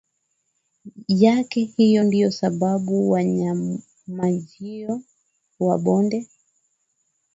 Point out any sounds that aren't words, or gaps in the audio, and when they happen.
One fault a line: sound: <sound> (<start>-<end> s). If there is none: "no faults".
no faults